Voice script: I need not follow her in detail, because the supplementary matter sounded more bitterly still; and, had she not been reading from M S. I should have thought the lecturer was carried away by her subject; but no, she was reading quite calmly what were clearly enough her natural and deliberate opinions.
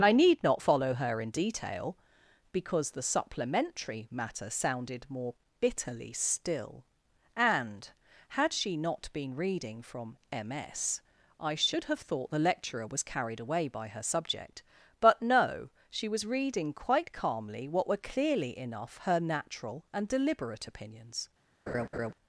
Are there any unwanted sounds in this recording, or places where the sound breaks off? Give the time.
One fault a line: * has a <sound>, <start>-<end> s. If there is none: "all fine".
* has a laugh, 21.7-22.1 s